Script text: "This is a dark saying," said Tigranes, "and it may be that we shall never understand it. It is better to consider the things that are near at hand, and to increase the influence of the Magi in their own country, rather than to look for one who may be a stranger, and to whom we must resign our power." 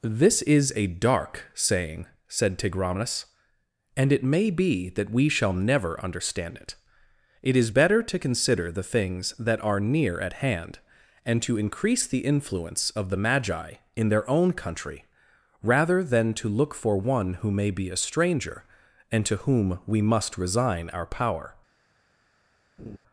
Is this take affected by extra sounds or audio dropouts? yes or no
yes